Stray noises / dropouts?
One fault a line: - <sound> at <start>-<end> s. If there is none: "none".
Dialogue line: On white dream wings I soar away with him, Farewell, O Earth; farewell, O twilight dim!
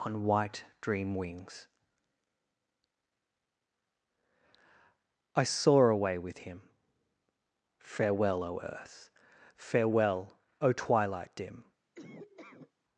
- laugh at 11.9-12.7 s